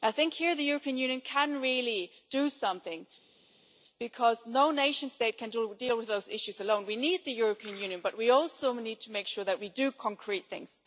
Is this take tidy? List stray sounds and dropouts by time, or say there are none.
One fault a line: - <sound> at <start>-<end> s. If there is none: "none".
none